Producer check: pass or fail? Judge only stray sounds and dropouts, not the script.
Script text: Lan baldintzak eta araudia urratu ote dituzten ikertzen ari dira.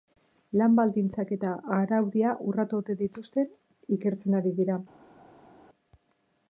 pass